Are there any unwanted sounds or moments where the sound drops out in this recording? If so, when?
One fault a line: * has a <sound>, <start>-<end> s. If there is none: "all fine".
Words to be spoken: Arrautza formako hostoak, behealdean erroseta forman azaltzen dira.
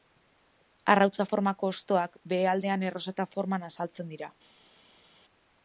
all fine